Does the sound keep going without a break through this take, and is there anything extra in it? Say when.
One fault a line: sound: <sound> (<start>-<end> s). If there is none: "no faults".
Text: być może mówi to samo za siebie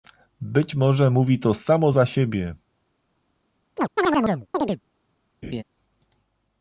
sound: chirp (3.8-4.8 s)
sound: laugh (5.4-5.6 s)